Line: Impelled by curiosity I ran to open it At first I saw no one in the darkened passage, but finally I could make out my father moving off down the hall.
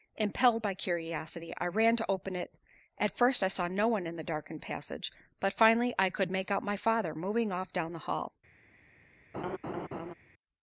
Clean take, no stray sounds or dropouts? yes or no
no